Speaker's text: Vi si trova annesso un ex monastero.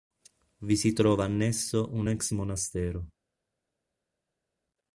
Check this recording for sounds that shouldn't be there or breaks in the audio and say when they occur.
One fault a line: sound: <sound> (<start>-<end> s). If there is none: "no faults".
no faults